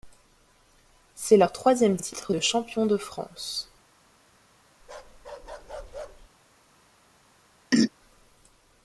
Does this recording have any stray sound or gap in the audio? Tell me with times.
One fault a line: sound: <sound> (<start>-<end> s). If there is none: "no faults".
sound: bark (4.8-6.3 s)
sound: throat clearing (7.7-7.9 s)